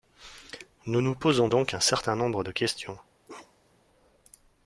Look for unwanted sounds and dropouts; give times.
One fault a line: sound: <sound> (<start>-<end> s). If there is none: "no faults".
sound: bark (3.3-3.9 s)